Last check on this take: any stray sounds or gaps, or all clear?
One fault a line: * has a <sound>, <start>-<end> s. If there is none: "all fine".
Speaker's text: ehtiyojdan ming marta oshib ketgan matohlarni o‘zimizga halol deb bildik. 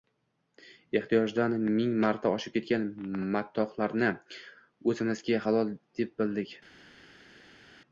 all fine